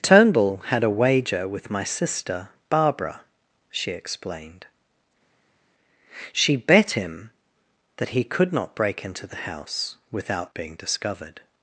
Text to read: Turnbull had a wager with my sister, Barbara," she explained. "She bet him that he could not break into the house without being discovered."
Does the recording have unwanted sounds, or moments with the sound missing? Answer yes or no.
no